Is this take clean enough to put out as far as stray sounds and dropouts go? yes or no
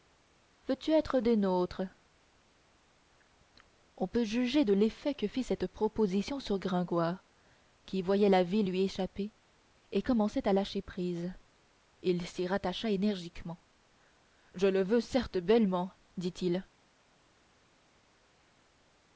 yes